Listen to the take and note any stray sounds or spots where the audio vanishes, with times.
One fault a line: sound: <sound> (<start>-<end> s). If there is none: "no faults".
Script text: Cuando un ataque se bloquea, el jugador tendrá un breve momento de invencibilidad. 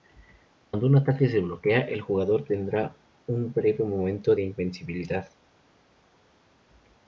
no faults